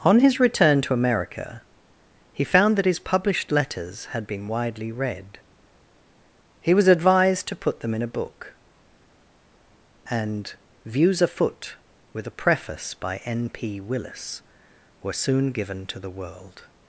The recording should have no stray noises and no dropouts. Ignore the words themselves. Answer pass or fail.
pass